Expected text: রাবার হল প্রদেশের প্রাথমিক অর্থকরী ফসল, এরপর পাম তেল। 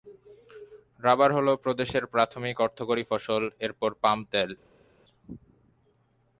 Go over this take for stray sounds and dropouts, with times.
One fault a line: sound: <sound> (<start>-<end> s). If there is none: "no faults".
no faults